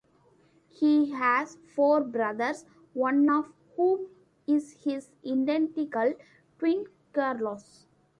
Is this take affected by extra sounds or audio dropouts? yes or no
no